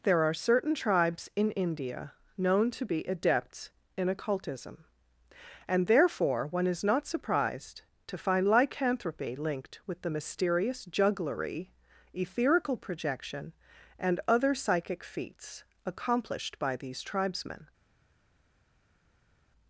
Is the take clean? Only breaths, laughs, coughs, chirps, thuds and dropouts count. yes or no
yes